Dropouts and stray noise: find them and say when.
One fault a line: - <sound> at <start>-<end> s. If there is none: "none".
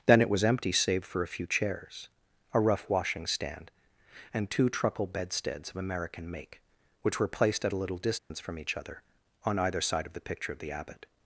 - dropout at 8.2-8.3 s